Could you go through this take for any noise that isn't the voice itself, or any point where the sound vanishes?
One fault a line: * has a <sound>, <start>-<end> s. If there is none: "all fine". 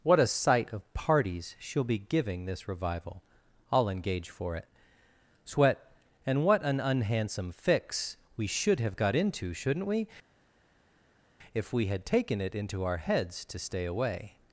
all fine